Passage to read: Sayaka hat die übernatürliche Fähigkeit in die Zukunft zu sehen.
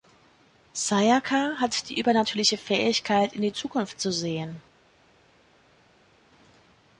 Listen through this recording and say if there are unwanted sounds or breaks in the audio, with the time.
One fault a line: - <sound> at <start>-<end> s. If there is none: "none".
none